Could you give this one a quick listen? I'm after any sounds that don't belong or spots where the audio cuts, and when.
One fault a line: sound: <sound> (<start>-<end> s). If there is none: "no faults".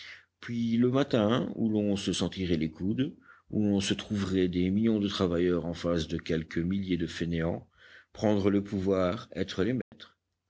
sound: dropout (9.8-9.9 s)